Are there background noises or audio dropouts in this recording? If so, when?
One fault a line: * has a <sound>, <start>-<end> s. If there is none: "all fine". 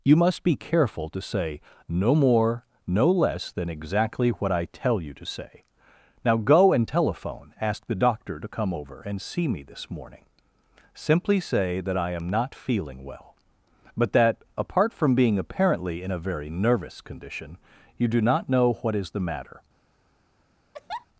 * has a laugh, 20.7-21.1 s